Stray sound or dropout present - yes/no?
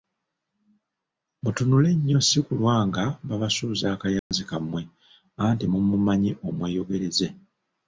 yes